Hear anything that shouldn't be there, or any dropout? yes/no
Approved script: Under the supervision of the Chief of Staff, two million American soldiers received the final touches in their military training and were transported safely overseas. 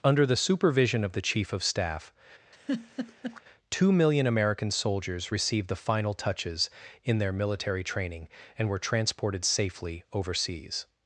yes